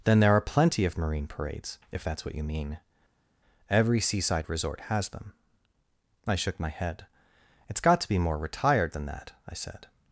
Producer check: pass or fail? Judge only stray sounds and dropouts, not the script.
pass